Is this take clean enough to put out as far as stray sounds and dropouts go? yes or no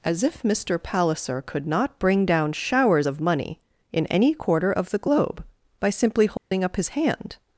no